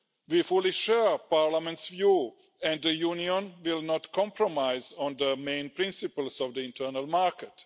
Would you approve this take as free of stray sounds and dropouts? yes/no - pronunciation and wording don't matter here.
yes